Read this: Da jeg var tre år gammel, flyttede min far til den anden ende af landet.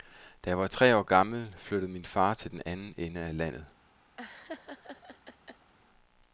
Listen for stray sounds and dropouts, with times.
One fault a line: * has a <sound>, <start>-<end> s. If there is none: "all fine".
* has a laugh, 4.2-5.7 s